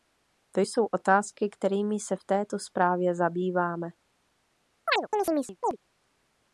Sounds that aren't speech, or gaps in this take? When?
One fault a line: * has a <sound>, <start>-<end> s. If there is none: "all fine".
* has a chirp, 4.9-5.8 s